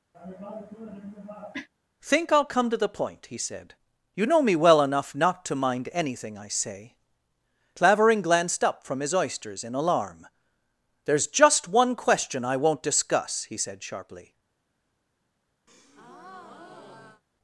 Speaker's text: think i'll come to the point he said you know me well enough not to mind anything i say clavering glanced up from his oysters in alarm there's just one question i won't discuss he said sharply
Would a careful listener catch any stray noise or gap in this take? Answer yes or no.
yes